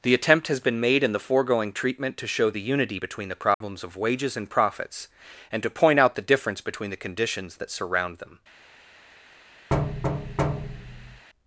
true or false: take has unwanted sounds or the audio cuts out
true